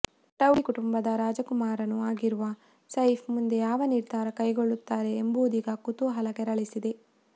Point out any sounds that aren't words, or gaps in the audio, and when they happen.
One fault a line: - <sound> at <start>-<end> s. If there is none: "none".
none